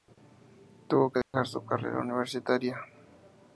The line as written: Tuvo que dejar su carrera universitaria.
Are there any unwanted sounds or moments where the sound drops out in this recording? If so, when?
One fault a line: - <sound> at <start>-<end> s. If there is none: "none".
- dropout at 1.2-1.3 s